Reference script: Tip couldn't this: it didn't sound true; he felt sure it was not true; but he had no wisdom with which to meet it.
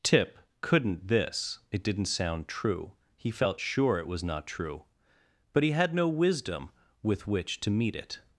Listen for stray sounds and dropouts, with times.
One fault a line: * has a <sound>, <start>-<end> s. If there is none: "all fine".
all fine